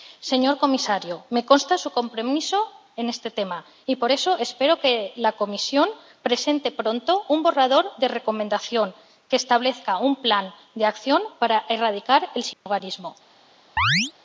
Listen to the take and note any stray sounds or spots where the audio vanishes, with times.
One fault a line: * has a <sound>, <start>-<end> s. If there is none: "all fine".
* has a dropout, 12.5-12.7 s
* has a chirp, 13.8-14.1 s